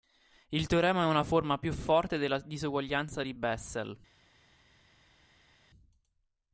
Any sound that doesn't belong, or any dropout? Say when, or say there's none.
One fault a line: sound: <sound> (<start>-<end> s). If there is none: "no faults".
no faults